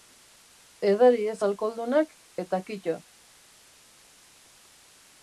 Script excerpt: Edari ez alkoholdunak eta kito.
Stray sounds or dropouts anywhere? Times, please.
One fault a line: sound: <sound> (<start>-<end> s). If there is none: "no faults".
no faults